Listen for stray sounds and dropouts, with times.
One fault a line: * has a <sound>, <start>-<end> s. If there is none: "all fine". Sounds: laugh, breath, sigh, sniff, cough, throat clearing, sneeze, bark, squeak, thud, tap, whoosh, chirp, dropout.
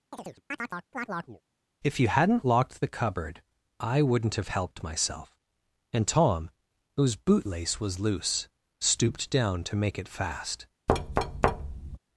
* has a chirp, 0.1-1.4 s
* has a thud, 10.9-12.0 s